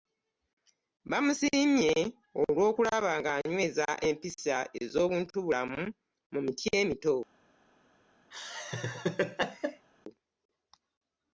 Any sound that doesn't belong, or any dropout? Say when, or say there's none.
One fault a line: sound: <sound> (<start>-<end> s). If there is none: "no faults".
sound: laugh (8.3-9.9 s)